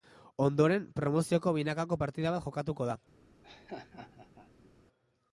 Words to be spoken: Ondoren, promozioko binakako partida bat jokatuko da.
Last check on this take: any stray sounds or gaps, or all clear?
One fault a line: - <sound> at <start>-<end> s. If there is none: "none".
- laugh at 3.4-4.7 s